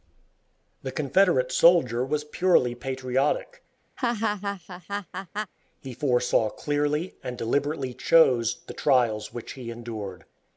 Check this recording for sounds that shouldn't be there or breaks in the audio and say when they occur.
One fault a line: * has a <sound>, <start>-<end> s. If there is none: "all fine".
* has a laugh, 4.0-5.5 s